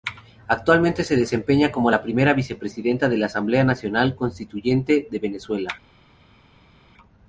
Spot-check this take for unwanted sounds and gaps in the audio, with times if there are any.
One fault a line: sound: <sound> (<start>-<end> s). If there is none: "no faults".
no faults